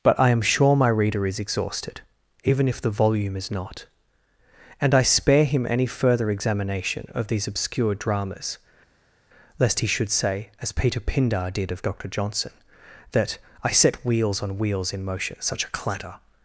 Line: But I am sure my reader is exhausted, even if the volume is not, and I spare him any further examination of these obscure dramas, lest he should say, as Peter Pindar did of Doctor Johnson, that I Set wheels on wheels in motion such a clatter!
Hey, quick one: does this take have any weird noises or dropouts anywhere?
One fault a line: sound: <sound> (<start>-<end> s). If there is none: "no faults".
no faults